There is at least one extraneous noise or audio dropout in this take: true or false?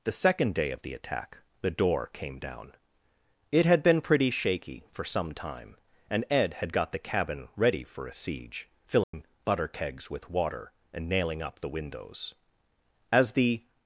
true